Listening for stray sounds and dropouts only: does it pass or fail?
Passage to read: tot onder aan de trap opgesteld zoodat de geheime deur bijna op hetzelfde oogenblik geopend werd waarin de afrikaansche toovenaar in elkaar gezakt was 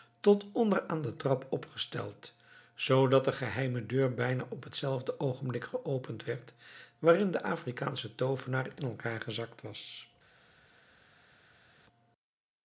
pass